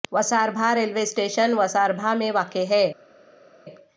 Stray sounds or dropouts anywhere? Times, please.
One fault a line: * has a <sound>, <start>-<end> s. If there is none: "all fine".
all fine